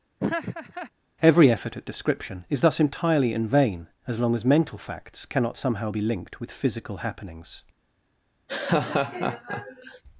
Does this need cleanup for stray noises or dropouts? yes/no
yes